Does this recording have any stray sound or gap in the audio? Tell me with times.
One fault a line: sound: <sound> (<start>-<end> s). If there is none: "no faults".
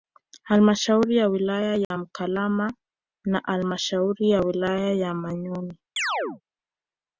sound: dropout (1.8-1.9 s)
sound: chirp (6.0-6.4 s)